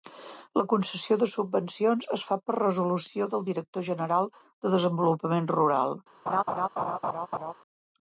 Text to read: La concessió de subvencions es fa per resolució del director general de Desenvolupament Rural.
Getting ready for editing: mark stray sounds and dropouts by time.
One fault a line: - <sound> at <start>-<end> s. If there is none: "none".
- laugh at 6.3-7.5 s